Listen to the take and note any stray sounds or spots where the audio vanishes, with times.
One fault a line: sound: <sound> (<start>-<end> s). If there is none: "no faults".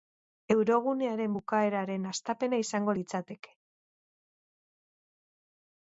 no faults